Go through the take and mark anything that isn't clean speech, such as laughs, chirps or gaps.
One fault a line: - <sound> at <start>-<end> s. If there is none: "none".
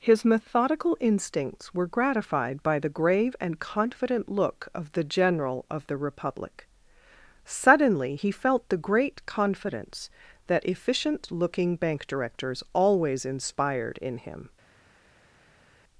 none